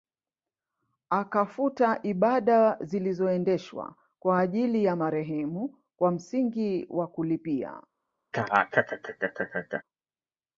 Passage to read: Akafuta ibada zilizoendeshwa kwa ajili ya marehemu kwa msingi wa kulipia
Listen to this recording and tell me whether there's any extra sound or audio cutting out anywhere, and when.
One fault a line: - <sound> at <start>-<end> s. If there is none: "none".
- laugh at 8.3-9.8 s